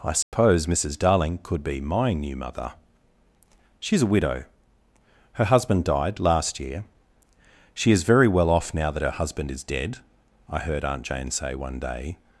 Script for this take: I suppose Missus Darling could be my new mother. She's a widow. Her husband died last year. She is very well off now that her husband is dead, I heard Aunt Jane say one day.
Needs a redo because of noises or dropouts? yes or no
yes